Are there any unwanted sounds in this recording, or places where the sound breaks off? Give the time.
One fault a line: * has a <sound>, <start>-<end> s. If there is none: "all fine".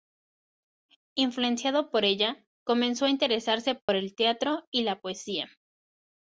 * has a dropout, 3.8-3.9 s